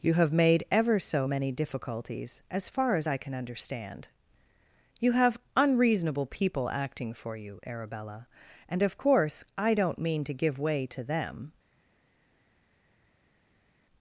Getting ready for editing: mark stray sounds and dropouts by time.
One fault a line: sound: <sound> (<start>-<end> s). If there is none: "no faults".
no faults